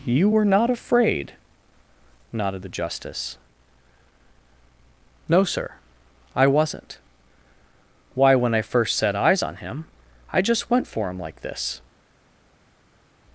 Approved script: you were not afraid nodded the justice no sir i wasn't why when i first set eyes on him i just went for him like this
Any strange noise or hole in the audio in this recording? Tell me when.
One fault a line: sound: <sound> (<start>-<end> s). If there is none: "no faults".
no faults